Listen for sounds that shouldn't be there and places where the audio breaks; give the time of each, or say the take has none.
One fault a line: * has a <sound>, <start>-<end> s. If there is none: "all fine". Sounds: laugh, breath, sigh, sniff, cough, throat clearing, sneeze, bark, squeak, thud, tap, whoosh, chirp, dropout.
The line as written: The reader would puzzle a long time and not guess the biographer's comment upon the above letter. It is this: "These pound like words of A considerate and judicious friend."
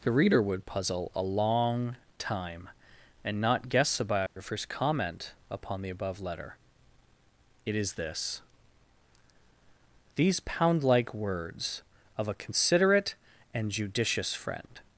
* has a dropout, 4.3-4.4 s